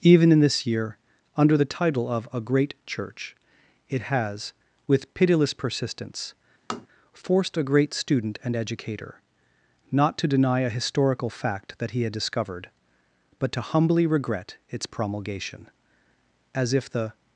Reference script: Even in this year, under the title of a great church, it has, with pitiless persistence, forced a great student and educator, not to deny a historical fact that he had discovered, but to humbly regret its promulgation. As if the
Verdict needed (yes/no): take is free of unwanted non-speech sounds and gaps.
no